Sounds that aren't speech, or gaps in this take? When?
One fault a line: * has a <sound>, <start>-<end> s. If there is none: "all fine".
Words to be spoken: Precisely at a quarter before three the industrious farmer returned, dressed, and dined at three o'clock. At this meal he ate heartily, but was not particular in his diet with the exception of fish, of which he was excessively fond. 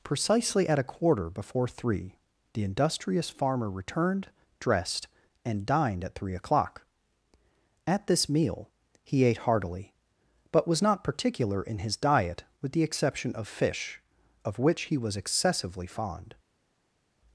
all fine